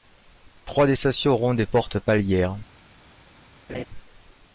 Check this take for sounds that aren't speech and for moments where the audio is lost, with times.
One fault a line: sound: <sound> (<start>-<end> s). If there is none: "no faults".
sound: laugh (3.7-3.8 s)